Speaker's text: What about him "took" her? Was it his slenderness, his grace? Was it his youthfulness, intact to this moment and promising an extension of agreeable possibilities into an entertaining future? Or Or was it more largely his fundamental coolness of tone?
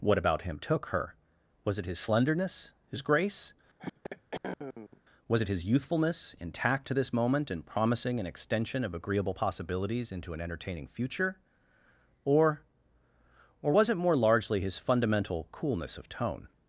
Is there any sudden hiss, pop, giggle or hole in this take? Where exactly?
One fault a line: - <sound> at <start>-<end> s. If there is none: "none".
- throat clearing at 3.8-5.0 s